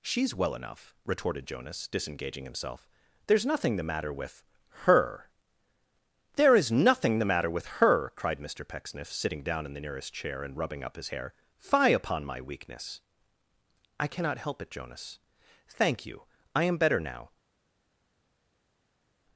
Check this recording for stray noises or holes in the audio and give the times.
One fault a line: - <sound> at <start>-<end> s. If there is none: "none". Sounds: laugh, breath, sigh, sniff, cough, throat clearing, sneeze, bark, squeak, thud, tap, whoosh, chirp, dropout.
none